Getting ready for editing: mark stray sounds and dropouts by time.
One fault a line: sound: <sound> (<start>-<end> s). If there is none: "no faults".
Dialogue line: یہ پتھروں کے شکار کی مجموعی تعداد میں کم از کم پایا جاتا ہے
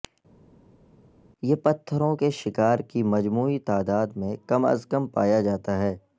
no faults